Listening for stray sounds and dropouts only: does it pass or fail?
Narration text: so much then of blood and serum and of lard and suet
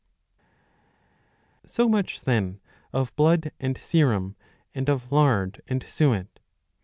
pass